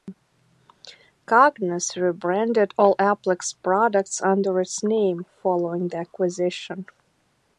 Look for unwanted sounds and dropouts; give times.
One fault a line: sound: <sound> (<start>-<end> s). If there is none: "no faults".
no faults